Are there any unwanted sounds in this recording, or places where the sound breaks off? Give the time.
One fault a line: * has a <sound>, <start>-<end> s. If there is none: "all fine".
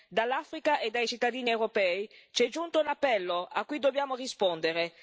all fine